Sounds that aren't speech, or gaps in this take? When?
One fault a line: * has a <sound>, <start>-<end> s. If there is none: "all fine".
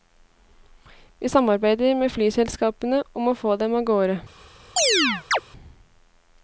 * has a chirp, 4.8-5.4 s